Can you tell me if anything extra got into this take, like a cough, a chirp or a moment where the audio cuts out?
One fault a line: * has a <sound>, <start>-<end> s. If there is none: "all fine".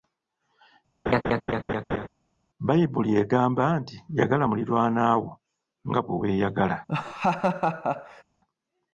* has a laugh, 1.1-2.1 s
* has a laugh, 6.9-8.2 s